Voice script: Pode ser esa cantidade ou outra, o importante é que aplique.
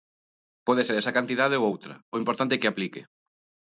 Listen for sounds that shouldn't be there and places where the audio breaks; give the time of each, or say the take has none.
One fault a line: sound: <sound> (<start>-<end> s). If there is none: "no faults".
no faults